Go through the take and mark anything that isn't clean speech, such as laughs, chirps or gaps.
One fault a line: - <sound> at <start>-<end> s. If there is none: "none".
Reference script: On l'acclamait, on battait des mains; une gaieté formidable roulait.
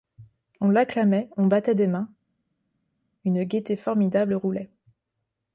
none